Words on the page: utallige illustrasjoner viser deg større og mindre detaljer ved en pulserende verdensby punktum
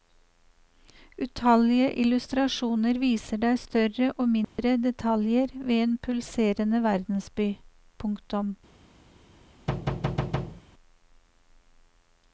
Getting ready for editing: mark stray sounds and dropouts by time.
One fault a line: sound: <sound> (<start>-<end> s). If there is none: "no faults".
sound: dropout (4.4-4.6 s)
sound: thud (9.7-10.6 s)